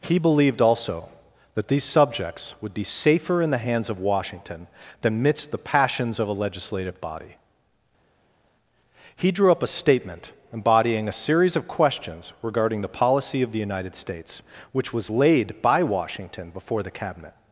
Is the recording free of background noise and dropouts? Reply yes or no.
yes